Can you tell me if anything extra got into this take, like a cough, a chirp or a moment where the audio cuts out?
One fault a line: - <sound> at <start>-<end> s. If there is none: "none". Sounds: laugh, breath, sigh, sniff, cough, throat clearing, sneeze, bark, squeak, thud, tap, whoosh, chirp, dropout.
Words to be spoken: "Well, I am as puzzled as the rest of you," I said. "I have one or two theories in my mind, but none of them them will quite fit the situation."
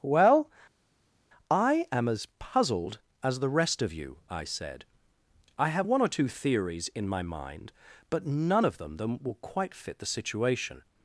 none